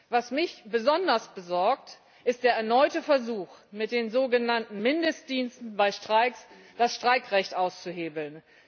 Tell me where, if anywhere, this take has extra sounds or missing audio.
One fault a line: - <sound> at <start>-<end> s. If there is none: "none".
none